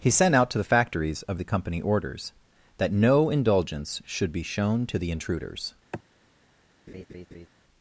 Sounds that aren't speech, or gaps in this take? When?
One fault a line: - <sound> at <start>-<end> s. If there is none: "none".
- sigh at 5.9-6.0 s
- laugh at 6.9-7.5 s